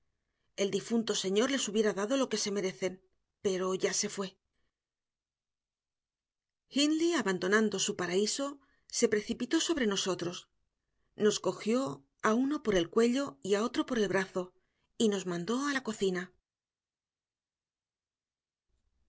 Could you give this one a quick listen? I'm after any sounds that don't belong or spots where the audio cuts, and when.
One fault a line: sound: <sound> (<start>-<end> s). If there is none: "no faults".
no faults